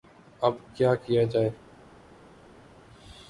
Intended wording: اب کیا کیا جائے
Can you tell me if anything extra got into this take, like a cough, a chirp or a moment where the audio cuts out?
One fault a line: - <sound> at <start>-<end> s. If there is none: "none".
none